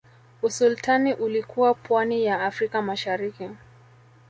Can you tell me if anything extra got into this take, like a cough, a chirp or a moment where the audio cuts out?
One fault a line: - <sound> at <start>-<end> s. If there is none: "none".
none